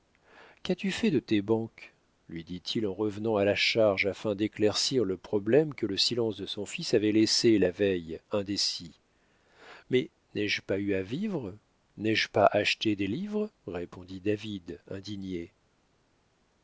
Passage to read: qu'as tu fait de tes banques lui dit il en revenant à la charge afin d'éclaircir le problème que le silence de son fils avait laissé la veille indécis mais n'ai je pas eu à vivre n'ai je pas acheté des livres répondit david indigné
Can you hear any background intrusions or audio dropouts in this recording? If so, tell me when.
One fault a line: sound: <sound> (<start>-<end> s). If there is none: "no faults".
no faults